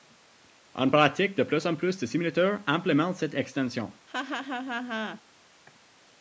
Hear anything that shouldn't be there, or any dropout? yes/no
yes